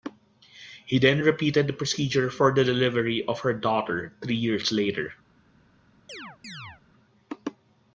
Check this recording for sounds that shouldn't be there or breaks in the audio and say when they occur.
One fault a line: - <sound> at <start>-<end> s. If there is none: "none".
- chirp at 6.1-6.8 s